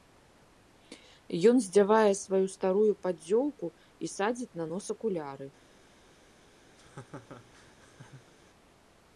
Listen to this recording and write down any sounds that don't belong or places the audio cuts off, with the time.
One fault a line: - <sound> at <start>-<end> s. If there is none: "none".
- laugh at 6.8-8.3 s